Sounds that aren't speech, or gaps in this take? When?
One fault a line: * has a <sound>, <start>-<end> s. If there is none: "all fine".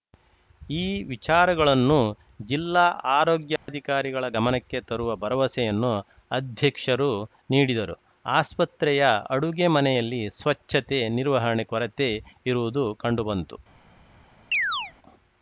* has a dropout, 3.6-3.7 s
* has a chirp, 14.5-14.9 s